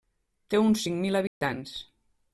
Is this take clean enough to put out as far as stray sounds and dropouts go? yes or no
no